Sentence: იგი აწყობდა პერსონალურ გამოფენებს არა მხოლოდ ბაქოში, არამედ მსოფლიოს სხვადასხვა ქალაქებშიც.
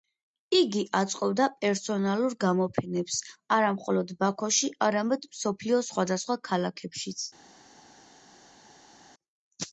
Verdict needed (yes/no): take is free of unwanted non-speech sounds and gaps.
yes